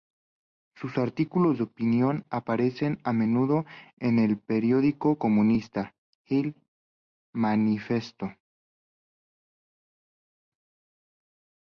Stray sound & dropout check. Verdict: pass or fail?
pass